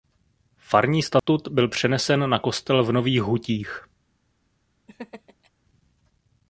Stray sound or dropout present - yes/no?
yes